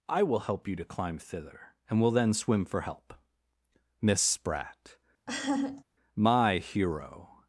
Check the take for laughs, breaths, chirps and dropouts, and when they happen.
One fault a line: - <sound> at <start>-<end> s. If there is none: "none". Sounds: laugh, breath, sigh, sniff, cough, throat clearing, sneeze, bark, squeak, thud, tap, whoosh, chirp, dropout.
- laugh at 5.3-5.8 s